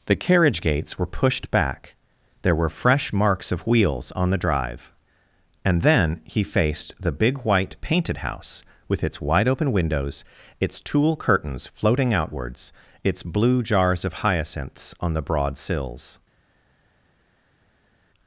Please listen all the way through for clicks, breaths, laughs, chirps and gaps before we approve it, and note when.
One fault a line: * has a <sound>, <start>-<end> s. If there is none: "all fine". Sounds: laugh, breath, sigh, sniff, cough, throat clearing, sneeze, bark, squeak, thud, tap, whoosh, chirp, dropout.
all fine